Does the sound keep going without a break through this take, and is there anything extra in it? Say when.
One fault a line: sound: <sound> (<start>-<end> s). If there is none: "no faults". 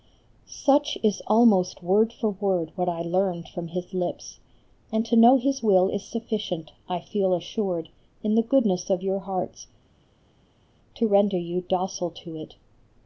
no faults